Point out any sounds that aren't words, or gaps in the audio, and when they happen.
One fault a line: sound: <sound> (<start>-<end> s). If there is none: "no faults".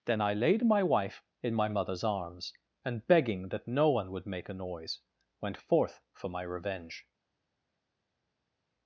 no faults